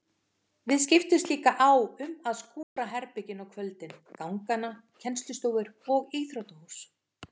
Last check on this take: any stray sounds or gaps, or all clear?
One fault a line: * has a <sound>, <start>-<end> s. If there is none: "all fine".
* has a dropout, 2.6-2.8 s